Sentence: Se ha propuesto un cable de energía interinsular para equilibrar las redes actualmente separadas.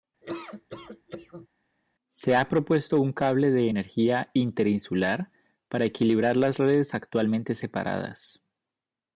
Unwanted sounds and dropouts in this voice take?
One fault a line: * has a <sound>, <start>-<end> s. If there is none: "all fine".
* has a laugh, 0.2-1.5 s